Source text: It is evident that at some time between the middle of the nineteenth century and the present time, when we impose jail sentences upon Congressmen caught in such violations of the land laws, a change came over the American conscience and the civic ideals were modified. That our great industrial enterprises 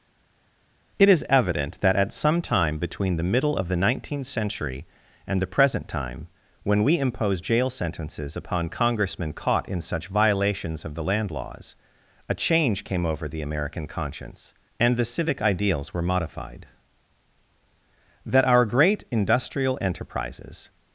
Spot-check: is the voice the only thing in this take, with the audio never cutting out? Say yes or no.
yes